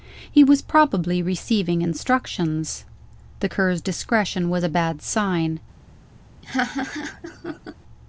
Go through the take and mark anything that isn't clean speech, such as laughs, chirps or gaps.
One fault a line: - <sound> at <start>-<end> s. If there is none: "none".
- laugh at 6.4-7.8 s